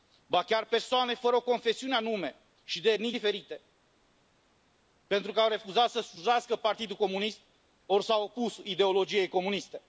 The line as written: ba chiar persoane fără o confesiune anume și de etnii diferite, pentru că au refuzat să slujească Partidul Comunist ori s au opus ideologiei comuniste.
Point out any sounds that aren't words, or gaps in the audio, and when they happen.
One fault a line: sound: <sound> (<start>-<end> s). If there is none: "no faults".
no faults